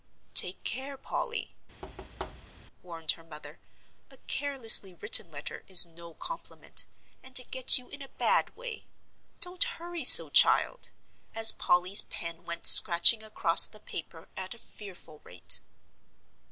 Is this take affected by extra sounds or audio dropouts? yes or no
yes